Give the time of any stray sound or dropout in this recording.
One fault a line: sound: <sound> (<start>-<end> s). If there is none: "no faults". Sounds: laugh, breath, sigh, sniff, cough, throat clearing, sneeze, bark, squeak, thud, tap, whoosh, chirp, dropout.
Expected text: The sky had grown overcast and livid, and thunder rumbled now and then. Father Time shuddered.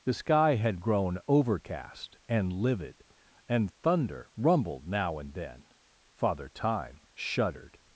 no faults